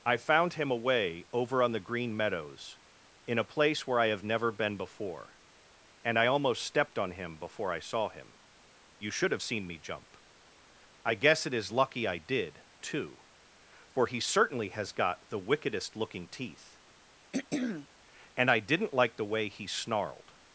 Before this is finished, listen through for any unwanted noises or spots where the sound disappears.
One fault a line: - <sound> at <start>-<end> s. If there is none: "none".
- throat clearing at 17.3-17.9 s